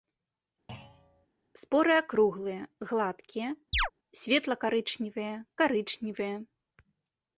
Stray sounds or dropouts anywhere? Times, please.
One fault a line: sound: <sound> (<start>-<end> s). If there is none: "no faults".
sound: thud (0.7-1.3 s)
sound: chirp (3.7-3.9 s)